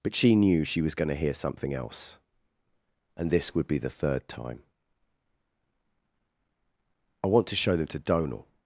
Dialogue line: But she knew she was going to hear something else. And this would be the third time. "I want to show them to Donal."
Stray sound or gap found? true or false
false